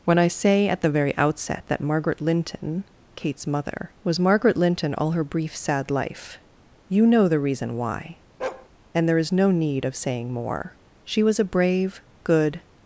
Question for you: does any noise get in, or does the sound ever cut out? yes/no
yes